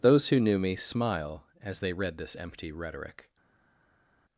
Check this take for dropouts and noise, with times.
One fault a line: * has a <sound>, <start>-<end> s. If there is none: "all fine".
all fine